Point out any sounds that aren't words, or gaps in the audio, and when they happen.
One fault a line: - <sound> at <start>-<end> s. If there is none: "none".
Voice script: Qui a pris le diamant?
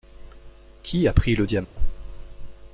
- dropout at 1.6-1.8 s